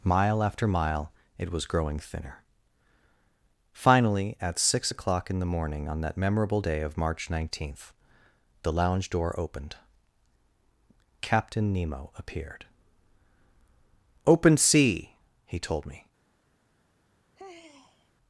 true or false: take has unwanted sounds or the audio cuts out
true